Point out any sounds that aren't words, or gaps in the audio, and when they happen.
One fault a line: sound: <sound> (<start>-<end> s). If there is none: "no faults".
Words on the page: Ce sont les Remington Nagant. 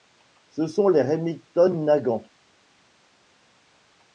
no faults